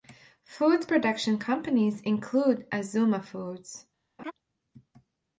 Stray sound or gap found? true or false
true